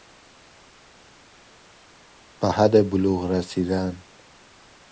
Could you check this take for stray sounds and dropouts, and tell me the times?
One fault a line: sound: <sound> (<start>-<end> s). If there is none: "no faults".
no faults